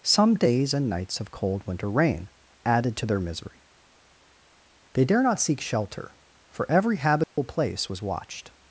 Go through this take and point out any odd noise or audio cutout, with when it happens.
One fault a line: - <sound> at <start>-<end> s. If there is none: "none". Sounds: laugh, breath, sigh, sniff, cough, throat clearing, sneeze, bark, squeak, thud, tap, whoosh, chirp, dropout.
- dropout at 7.2-7.4 s